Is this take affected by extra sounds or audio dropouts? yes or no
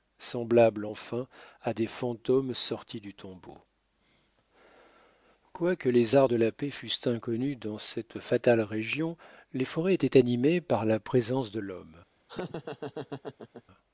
yes